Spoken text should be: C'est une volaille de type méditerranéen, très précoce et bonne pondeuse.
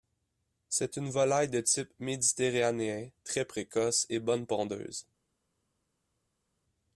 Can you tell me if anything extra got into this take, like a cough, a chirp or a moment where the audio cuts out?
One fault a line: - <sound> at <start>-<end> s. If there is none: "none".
none